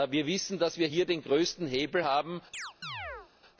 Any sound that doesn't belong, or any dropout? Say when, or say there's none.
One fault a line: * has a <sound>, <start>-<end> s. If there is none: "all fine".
* has a chirp, 2.5-3.3 s